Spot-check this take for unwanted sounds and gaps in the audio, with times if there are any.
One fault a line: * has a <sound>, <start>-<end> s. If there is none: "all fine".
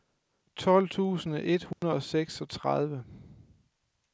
* has a dropout, 1.7-1.8 s